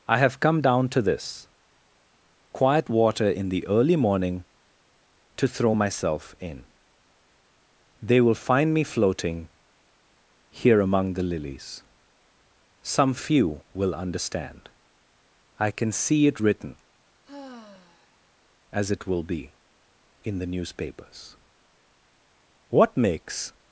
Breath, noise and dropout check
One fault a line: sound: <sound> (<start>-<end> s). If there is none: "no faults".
sound: sigh (17.2-18.2 s)